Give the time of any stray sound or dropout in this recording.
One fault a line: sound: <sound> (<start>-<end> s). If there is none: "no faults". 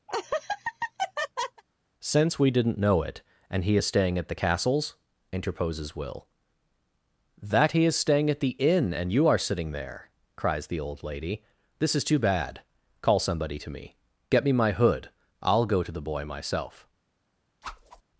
sound: laugh (0.1-1.6 s)
sound: whoosh (17.6-18.0 s)